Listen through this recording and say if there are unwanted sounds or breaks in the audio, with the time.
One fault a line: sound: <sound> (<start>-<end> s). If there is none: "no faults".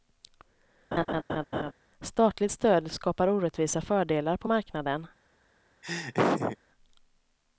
sound: laugh (0.9-1.7 s)
sound: laugh (5.8-6.6 s)